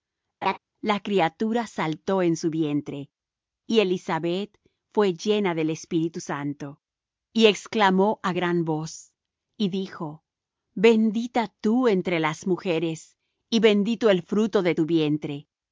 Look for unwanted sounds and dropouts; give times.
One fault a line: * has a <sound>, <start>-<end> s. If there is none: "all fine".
* has a laugh, 0.4-0.6 s